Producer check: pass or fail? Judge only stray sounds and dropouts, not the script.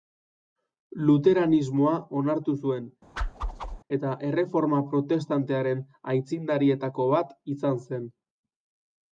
fail